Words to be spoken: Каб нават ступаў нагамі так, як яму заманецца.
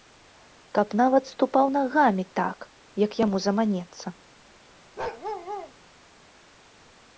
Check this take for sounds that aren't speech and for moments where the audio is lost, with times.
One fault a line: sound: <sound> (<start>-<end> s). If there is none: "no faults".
sound: bark (5.0-5.7 s)